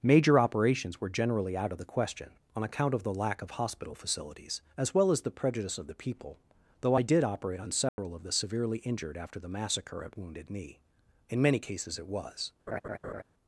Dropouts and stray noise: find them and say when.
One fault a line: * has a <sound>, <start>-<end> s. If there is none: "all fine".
* has a dropout, 7.9-8.0 s
* has a laugh, 12.7-13.2 s